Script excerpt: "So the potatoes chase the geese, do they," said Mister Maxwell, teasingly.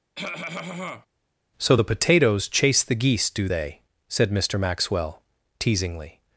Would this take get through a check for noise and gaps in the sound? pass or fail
fail